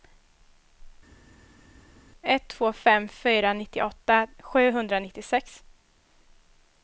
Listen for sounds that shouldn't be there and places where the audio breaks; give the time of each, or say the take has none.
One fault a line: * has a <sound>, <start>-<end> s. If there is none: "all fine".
all fine